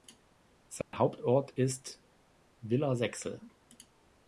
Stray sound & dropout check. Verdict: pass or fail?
fail